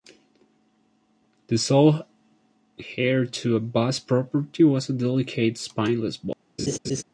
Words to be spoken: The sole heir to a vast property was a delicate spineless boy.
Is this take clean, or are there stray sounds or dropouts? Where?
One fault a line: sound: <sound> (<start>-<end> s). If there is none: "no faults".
sound: laugh (6.6-7.0 s)